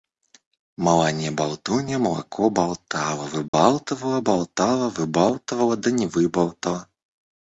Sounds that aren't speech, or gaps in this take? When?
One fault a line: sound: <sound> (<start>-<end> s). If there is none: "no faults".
sound: dropout (3.5-3.5 s)